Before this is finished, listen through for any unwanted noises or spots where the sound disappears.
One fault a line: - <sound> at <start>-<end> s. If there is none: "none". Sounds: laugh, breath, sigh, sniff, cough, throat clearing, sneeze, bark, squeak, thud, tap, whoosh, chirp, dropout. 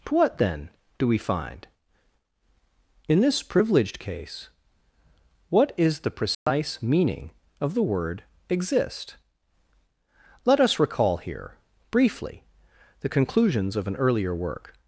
- dropout at 6.3-6.5 s